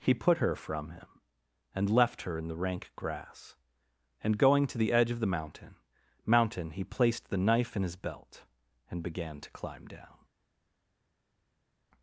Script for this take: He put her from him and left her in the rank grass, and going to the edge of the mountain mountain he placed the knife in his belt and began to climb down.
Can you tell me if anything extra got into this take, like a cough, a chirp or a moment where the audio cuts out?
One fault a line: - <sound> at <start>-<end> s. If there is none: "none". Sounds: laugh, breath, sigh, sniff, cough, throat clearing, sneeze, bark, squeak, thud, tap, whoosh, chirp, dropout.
none